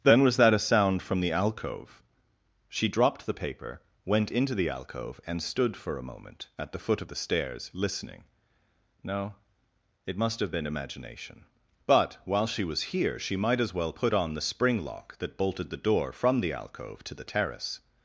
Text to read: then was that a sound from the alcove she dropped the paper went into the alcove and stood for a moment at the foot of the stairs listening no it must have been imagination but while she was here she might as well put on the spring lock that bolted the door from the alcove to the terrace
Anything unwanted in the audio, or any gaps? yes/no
no